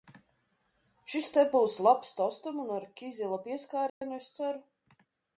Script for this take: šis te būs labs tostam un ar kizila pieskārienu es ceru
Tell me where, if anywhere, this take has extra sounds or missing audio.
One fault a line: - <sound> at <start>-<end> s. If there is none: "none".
- dropout at 3.9-4.0 s